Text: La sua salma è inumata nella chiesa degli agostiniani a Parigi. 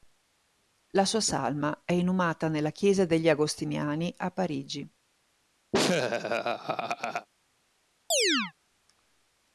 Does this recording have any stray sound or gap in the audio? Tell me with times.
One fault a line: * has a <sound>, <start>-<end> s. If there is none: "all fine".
* has a laugh, 5.7-7.3 s
* has a chirp, 8.1-8.5 s